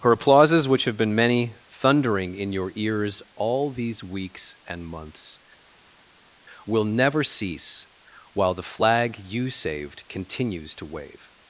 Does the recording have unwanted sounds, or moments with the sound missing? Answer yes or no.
no